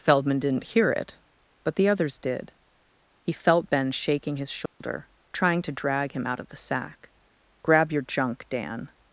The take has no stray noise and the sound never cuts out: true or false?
false